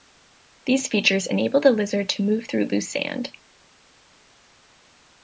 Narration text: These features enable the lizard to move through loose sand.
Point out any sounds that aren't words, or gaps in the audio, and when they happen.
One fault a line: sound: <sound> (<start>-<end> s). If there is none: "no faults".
no faults